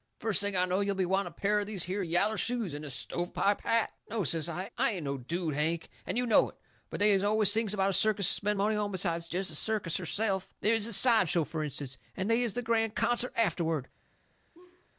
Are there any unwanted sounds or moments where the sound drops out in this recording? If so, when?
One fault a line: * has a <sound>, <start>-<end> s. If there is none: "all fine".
* has a laugh, 14.5-14.9 s